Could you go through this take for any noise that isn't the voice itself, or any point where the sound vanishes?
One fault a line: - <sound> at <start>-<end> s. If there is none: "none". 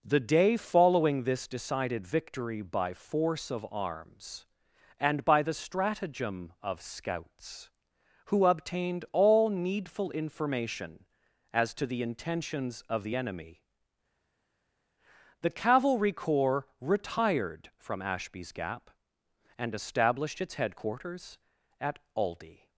none